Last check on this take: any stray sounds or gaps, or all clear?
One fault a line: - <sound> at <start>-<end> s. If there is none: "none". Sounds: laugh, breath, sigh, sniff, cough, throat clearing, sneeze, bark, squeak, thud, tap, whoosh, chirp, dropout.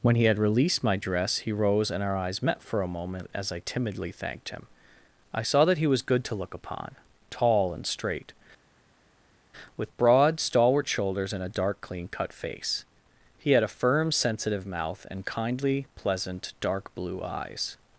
none